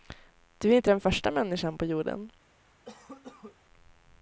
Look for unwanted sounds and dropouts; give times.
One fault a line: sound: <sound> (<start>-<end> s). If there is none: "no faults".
sound: cough (2.8-3.6 s)